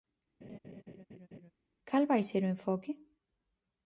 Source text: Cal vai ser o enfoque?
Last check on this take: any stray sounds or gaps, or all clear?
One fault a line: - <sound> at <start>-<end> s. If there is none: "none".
- laugh at 0.4-1.5 s